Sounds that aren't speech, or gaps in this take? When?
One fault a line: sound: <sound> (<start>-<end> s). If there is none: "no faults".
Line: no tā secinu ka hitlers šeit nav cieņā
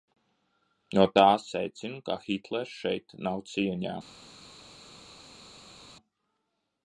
no faults